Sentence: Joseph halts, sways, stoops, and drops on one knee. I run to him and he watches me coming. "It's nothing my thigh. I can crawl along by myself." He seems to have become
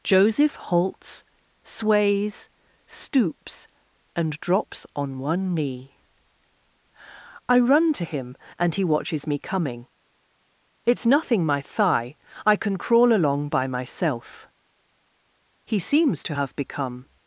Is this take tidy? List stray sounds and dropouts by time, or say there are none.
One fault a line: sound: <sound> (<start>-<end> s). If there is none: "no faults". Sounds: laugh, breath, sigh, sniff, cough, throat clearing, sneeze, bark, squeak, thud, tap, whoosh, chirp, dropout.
no faults